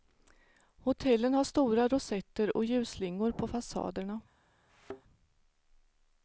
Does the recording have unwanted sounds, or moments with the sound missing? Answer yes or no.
yes